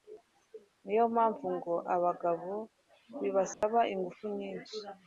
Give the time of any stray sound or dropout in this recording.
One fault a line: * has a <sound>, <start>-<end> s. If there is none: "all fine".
* has a dropout, 3.5-3.6 s